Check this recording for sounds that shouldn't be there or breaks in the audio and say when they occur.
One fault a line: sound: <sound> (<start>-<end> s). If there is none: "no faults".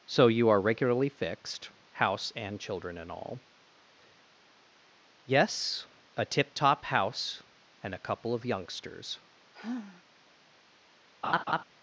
sound: sigh (9.5-10.0 s)
sound: laugh (11.2-11.6 s)